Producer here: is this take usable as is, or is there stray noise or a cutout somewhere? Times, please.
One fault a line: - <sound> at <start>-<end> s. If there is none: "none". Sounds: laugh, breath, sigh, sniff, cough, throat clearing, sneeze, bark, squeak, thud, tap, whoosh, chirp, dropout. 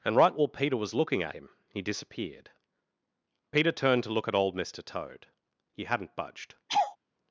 - laugh at 6.7-7.0 s